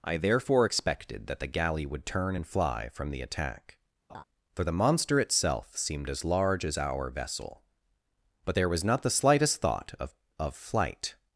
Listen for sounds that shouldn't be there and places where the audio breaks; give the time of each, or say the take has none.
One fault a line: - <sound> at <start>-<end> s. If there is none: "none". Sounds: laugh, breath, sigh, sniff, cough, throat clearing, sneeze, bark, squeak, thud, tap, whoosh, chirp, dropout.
- laugh at 4.1-4.2 s